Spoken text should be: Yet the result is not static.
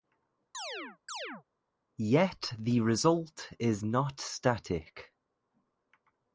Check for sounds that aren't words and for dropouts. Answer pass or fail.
fail